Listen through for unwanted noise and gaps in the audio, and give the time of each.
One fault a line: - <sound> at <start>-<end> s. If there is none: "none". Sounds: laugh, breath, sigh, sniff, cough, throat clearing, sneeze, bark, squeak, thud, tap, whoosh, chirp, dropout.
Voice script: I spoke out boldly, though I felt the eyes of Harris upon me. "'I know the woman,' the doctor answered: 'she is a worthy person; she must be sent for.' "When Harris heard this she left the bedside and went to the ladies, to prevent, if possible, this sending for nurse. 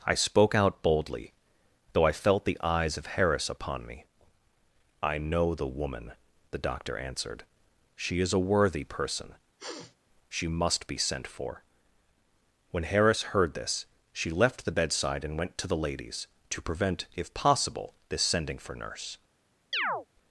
- sniff at 9.6-10.0 s
- chirp at 19.7-20.1 s